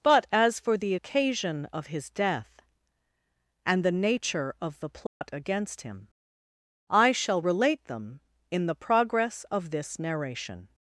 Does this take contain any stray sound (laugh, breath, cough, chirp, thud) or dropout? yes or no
yes